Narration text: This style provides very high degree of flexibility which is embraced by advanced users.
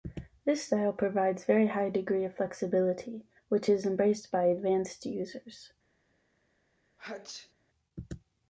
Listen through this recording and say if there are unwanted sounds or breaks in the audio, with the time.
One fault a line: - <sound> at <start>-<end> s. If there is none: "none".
- sneeze at 7.0-7.5 s